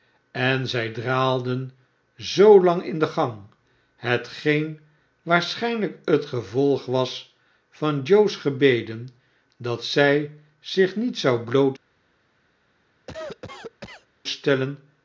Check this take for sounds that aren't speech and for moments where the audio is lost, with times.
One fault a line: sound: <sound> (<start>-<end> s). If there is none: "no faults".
sound: cough (13.1-14.1 s)